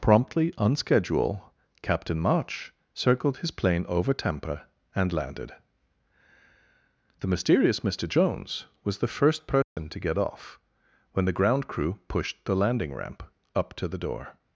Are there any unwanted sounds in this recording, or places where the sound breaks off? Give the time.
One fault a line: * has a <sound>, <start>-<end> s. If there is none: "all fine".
* has a dropout, 9.6-9.8 s